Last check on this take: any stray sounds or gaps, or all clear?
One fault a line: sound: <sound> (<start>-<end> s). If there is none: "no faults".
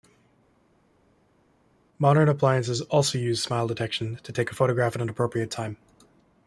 no faults